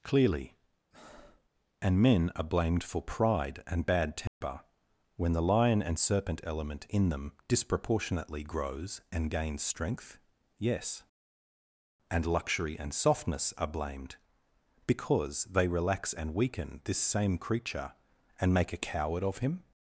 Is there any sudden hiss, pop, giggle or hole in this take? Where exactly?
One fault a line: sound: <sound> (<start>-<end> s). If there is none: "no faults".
sound: breath (0.9-1.5 s)
sound: dropout (4.3-4.4 s)